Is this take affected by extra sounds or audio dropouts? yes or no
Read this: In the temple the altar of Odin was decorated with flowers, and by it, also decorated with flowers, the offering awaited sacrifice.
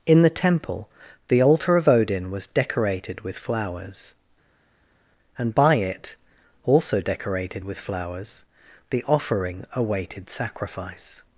no